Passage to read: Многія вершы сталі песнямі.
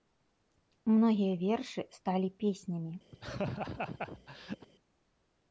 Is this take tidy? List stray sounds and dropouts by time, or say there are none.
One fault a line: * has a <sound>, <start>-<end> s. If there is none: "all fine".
* has a laugh, 3.1-4.7 s